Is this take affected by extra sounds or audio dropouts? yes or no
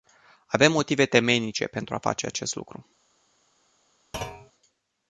yes